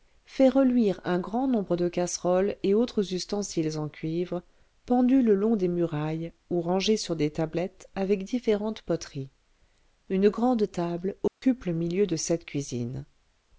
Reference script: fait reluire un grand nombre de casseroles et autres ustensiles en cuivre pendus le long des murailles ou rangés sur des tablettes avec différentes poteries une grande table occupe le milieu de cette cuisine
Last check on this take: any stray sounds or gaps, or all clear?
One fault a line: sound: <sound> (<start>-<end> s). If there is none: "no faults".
sound: dropout (11.3-11.4 s)